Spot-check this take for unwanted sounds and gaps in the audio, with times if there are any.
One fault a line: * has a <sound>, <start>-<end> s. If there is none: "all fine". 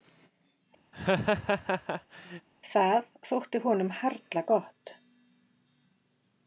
* has a laugh, 0.9-2.5 s